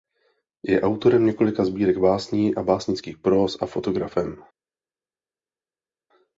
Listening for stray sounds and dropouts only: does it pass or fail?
pass